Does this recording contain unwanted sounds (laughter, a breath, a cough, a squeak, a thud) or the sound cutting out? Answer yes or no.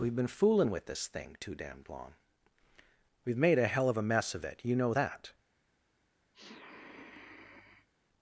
yes